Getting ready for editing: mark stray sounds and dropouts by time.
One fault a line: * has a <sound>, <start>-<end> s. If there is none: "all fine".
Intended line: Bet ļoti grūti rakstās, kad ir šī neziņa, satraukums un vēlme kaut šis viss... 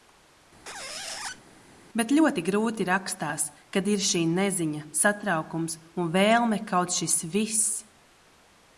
* has a squeak, 0.7-1.4 s